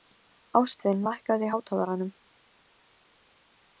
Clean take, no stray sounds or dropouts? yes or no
yes